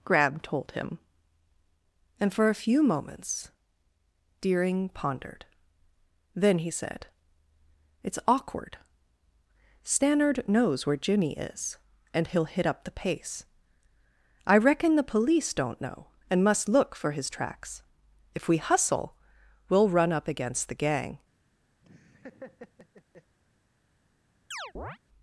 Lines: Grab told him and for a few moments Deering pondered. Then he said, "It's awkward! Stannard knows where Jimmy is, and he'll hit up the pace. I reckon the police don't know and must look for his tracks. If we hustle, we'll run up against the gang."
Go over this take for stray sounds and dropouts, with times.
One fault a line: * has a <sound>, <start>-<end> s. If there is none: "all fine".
* has a laugh, 21.8-23.4 s
* has a chirp, 24.5-25.0 s